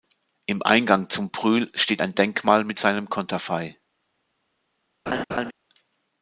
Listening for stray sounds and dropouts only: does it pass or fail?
fail